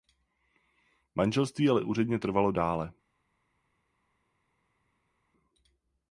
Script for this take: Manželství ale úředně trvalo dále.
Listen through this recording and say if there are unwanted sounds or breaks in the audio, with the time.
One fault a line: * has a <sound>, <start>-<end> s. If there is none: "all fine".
all fine